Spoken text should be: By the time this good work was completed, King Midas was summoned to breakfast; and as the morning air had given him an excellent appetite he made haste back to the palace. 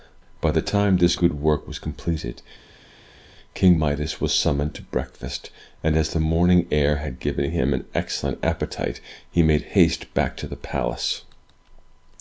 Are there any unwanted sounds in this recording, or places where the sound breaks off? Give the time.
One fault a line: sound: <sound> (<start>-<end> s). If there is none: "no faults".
no faults